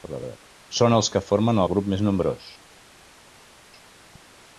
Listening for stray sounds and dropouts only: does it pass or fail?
pass